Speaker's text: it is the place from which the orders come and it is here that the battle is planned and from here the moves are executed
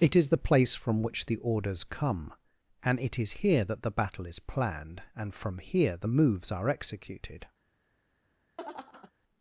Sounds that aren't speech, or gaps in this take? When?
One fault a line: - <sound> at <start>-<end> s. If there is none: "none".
- laugh at 8.6-9.1 s